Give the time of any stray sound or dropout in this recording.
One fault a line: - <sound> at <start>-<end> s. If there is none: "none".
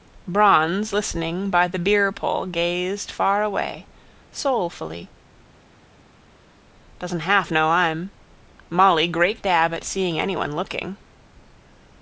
none